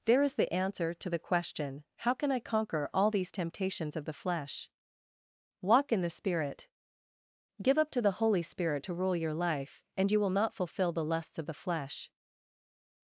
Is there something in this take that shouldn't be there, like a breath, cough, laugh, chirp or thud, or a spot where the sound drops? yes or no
no